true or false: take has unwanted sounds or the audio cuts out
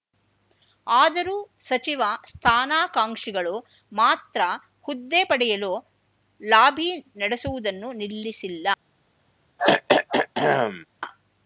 true